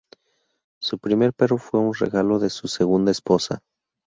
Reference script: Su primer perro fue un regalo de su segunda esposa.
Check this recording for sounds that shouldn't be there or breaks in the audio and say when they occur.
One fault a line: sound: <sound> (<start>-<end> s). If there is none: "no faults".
no faults